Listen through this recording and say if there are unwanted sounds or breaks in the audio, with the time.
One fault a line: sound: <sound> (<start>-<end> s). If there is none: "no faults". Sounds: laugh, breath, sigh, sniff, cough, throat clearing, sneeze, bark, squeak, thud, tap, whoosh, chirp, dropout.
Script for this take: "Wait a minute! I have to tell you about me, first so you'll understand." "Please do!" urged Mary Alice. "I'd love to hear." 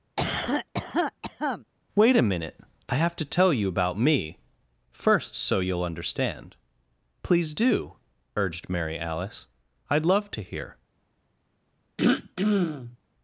sound: cough (0.2-1.6 s)
sound: throat clearing (12.0-13.0 s)